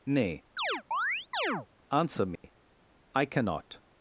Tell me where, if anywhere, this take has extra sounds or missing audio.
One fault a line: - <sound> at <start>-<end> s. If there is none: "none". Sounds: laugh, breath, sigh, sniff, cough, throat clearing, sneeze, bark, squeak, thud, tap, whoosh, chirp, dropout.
- chirp at 0.6-1.7 s
- dropout at 2.4-2.4 s